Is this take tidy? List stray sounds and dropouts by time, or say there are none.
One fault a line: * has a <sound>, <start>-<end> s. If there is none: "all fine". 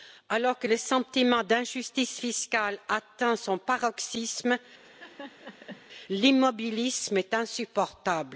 * has a laugh, 4.8-5.9 s